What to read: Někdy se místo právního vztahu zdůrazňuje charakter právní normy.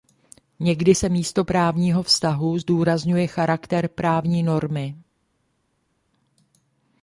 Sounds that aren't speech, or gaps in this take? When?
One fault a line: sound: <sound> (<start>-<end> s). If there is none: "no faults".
no faults